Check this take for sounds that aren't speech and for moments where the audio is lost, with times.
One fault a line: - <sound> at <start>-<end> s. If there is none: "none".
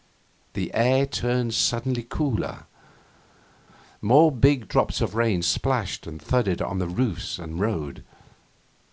none